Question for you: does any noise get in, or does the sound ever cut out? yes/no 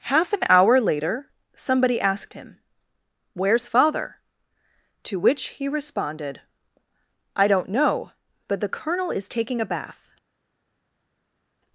no